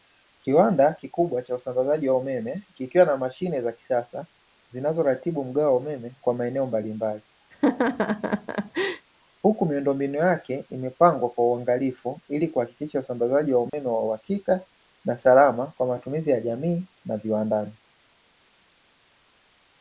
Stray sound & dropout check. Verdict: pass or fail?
fail